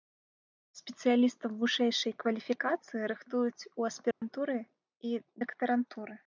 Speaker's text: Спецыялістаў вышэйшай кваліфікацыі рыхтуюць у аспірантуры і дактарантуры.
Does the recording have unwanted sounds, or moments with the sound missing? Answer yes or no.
yes